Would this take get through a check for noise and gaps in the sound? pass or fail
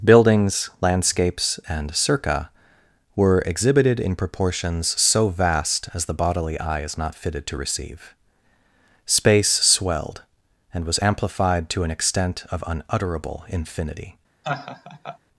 fail